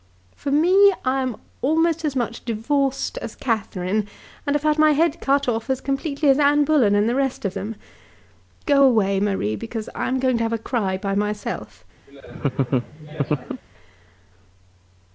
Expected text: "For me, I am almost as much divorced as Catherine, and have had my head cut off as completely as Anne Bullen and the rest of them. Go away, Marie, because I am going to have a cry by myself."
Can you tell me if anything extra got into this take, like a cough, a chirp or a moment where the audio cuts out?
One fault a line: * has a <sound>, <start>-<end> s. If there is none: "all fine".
* has a laugh, 12.1-13.6 s